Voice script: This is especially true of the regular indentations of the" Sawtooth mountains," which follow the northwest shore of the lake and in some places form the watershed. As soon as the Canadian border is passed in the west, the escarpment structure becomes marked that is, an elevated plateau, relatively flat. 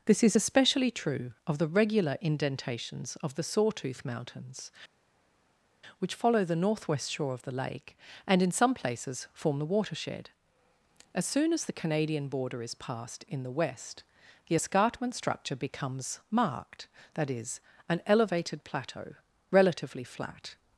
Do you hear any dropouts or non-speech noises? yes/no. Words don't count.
no